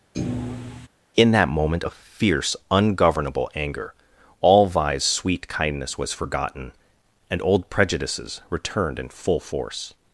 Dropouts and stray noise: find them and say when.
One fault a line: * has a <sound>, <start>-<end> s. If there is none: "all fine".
* has a thud, 0.1-0.9 s